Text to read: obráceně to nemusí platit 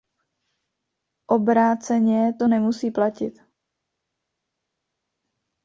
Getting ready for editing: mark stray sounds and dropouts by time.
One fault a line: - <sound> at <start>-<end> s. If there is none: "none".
none